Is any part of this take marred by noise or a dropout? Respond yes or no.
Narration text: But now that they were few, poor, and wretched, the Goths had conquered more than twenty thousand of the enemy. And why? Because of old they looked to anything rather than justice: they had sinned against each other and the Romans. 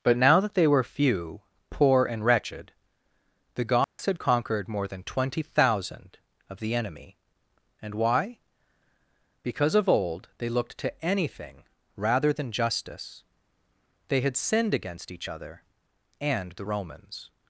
yes